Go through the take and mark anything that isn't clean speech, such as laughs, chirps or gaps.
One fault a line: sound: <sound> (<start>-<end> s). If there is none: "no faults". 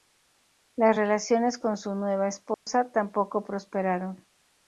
sound: dropout (2.5-2.7 s)